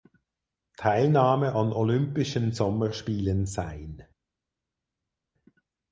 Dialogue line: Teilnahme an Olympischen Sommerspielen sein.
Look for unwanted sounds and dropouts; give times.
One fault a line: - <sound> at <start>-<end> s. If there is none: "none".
none